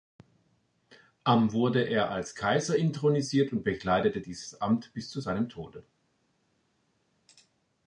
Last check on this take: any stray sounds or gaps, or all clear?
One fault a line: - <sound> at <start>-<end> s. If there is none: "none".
none